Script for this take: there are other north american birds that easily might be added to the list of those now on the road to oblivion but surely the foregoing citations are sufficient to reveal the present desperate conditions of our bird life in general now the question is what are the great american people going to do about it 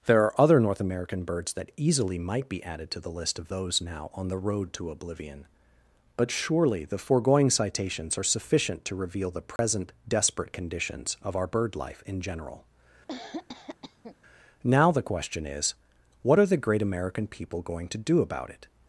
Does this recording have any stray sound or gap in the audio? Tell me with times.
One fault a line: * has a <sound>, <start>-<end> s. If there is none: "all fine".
* has a dropout, 9.6-9.6 s
* has a cough, 13.1-14.2 s